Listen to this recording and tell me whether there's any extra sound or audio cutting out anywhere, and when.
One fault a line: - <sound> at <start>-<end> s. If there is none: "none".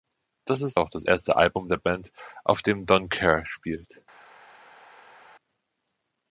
none